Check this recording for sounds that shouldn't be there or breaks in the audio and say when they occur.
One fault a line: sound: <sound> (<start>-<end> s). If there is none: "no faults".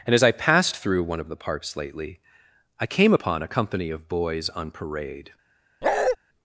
sound: bark (5.8-6.2 s)